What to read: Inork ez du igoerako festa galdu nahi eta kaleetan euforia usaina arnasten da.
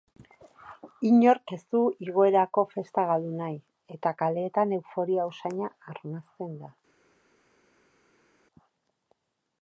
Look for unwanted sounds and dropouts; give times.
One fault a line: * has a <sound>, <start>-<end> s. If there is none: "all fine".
all fine